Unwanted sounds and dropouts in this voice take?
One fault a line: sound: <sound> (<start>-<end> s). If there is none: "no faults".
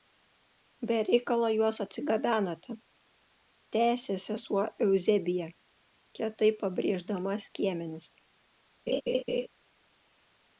sound: laugh (8.9-9.5 s)